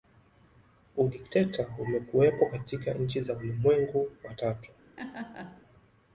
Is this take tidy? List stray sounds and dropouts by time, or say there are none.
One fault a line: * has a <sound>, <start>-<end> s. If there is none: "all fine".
* has a laugh, 5.0-5.6 s